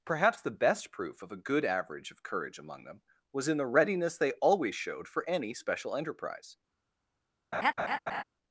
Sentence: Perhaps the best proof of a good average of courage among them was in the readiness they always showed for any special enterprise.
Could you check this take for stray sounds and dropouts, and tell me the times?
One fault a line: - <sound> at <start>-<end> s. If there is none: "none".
- laugh at 7.5-8.2 s